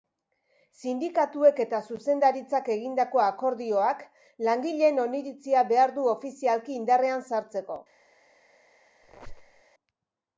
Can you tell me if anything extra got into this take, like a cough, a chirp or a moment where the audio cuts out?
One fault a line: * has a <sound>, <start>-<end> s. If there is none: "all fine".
* has a squeak, 9.0-9.6 s